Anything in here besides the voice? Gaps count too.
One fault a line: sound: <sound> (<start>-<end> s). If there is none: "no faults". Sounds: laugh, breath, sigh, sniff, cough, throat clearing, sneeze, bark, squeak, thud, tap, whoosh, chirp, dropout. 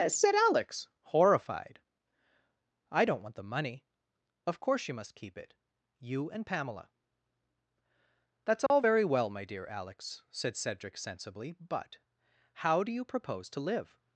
sound: dropout (8.7-8.7 s)